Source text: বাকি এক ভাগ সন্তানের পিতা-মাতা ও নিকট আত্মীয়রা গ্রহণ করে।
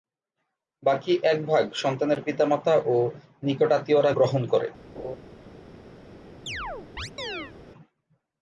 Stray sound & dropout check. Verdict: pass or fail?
fail